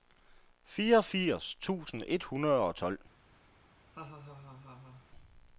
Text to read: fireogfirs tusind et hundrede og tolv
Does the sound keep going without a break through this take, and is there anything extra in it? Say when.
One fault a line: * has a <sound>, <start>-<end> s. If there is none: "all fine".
* has a laugh, 3.9-5.1 s